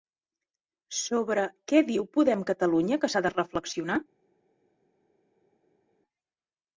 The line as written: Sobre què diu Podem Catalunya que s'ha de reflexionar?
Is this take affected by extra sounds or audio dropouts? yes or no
no